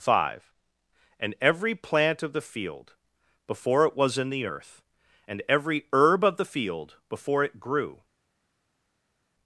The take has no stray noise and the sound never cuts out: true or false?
true